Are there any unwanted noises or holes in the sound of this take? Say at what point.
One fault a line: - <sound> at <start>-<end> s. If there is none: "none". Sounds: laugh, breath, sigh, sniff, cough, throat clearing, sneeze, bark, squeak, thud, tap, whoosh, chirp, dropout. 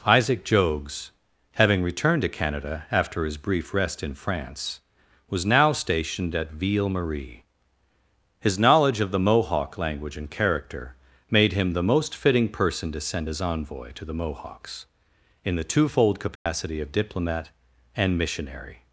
- dropout at 16.4-16.5 s